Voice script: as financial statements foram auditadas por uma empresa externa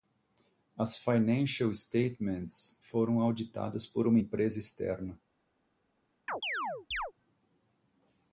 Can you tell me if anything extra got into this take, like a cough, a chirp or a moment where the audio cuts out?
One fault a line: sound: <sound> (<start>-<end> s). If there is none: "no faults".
sound: chirp (6.3-7.1 s)